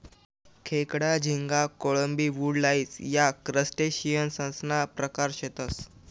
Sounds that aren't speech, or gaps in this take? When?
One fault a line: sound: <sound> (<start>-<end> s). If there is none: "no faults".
no faults